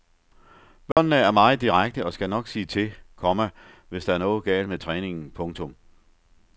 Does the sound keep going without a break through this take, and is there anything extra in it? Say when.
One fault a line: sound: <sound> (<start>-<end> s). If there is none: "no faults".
sound: dropout (0.9-1.0 s)